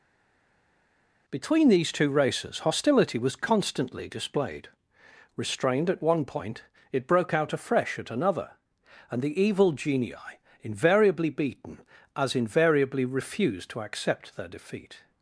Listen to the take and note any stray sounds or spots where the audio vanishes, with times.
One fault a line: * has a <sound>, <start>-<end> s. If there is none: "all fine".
all fine